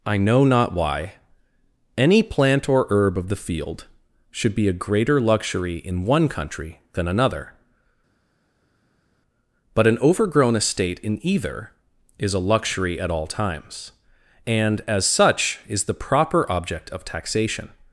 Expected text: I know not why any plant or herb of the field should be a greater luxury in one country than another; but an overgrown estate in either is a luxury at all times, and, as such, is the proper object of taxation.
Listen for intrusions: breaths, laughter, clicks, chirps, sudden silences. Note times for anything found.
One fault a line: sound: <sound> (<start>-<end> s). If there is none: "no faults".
no faults